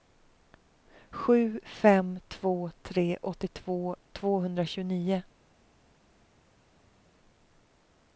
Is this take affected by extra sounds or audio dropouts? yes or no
no